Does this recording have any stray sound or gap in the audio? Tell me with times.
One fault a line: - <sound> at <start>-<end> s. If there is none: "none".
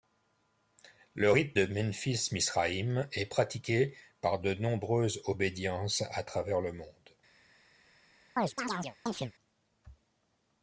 - chirp at 8.4-9.3 s